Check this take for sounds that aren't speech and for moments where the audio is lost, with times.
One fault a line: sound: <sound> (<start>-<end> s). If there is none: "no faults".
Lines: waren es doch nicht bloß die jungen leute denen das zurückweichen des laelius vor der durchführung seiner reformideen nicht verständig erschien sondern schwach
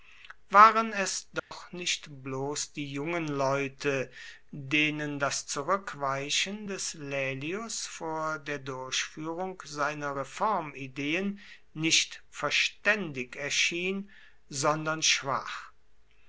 sound: dropout (1.4-1.5 s)